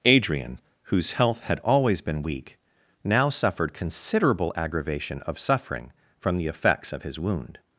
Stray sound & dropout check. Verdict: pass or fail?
pass